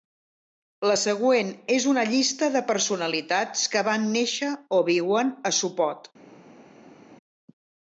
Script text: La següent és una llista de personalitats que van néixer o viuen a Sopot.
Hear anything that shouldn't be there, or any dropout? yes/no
no